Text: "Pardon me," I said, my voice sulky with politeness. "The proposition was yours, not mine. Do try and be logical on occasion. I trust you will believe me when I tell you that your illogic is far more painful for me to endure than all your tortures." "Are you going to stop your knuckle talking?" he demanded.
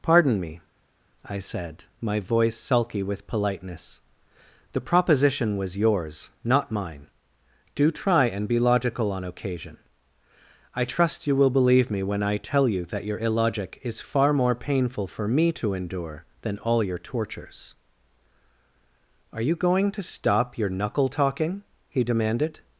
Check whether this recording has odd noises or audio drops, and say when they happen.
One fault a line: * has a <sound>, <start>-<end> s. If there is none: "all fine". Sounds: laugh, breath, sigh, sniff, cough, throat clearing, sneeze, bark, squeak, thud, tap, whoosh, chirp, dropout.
all fine